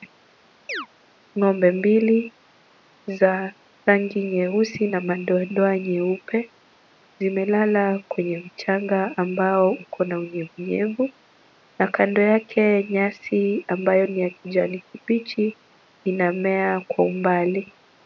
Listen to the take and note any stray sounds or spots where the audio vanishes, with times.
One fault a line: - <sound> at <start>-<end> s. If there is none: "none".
- chirp at 0.7-0.9 s